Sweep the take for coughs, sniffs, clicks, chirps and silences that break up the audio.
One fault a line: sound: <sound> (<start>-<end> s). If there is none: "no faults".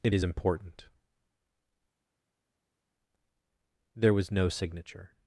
no faults